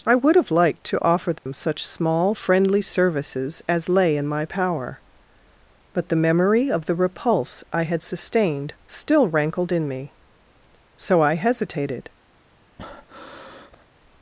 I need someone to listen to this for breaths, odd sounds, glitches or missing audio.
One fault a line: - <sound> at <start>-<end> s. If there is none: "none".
- dropout at 1.4-1.5 s
- breath at 12.8-13.8 s